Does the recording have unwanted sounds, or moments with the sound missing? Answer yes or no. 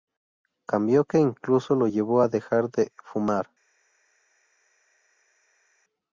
no